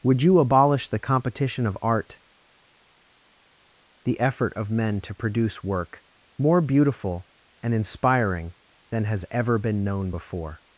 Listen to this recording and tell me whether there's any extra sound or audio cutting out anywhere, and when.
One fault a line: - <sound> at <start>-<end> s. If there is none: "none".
none